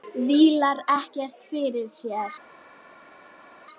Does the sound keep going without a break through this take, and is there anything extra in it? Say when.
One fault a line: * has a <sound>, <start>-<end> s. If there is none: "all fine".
all fine